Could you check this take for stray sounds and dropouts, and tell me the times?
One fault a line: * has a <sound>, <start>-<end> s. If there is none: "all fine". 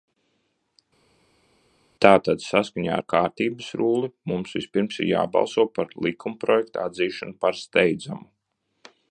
all fine